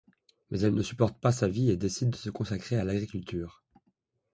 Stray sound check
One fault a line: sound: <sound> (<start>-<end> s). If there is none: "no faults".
no faults